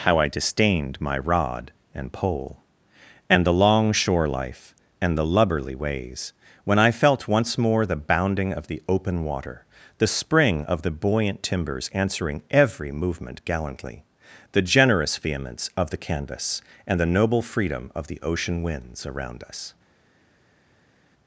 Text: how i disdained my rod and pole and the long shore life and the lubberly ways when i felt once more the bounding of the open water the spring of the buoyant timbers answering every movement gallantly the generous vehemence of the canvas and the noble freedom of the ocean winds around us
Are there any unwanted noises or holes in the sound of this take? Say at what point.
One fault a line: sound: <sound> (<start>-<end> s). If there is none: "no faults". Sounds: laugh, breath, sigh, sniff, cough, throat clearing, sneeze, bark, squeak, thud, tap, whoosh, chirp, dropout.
no faults